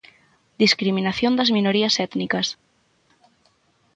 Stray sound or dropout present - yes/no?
no